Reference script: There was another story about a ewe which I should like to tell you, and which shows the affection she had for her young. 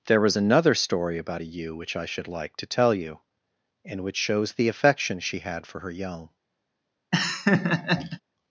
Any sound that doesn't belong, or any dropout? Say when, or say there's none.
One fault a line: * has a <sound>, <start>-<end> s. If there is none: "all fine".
* has a laugh, 7.1-8.2 s